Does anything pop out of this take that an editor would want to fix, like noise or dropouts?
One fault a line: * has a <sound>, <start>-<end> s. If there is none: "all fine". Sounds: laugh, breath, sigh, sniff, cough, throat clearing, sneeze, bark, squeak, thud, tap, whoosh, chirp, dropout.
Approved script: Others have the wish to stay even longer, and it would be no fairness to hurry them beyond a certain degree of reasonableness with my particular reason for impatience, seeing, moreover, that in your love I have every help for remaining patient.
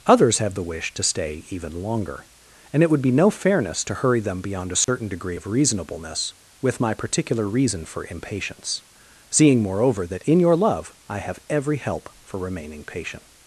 * has a dropout, 4.8-4.9 s